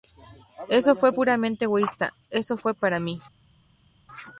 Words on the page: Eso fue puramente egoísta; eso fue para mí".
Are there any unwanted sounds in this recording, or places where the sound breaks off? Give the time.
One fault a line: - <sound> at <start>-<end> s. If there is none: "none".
none